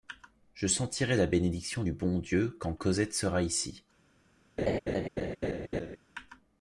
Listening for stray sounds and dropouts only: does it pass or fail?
fail